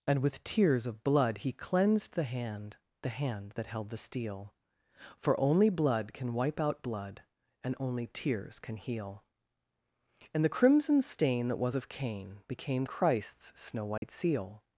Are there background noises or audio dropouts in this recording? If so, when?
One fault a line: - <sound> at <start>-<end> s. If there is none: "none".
- dropout at 14.0-14.0 s